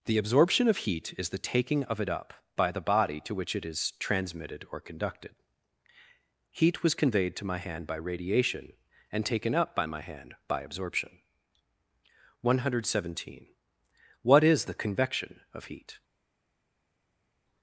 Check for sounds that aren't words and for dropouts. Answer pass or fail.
pass